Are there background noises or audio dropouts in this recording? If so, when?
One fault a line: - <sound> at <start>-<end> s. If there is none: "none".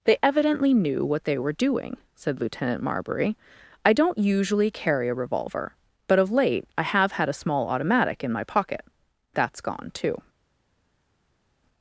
none